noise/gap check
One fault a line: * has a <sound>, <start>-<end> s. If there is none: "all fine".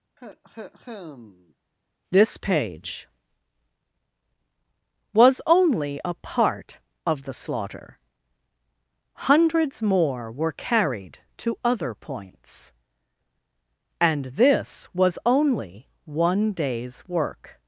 * has a cough, 0.2-1.5 s